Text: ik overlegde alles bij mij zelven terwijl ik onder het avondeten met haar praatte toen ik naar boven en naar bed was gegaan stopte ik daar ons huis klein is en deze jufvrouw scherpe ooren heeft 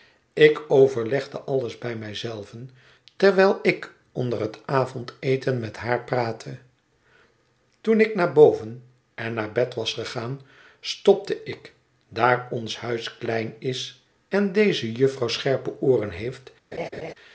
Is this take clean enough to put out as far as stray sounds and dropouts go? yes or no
no